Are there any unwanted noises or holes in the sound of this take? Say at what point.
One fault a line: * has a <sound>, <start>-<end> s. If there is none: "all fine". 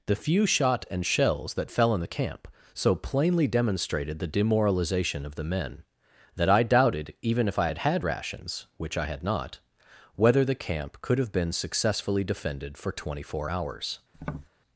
* has a tap, 14.1-14.5 s